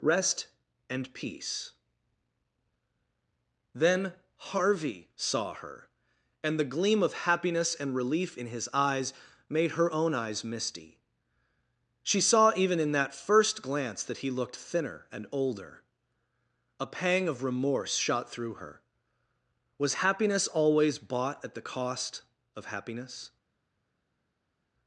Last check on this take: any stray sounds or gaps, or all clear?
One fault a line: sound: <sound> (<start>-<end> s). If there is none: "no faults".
no faults